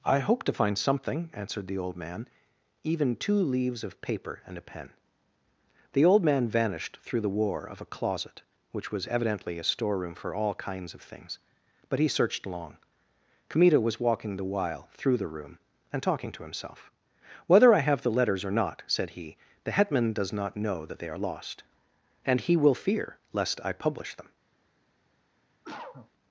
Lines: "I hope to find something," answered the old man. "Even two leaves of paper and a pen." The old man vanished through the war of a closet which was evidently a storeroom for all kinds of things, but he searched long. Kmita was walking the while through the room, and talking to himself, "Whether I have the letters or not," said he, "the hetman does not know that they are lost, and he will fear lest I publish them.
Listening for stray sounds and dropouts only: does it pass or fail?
fail